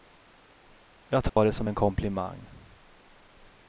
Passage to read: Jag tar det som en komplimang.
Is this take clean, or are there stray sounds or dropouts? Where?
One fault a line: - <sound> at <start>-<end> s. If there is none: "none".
- dropout at 1.3-1.4 s